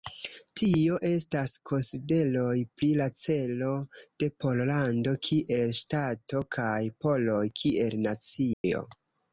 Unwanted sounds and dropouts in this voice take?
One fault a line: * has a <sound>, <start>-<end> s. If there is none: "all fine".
* has a dropout, 8.5-8.6 s